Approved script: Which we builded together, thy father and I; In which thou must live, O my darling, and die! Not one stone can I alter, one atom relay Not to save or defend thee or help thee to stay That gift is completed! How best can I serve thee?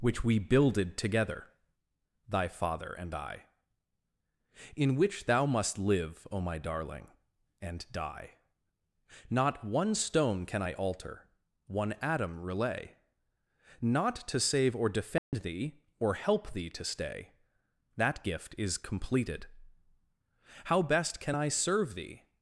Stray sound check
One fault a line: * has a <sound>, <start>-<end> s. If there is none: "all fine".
* has a dropout, 15.2-15.3 s